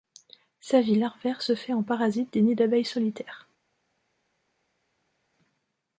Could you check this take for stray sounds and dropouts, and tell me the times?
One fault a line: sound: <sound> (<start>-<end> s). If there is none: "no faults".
no faults